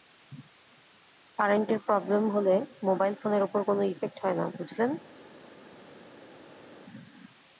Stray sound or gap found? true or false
false